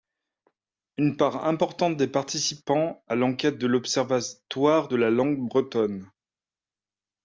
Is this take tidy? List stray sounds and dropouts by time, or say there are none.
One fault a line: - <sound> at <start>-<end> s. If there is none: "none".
none